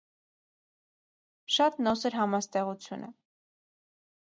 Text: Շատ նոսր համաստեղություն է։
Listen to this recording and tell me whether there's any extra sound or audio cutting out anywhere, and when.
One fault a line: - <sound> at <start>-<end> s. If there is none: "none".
none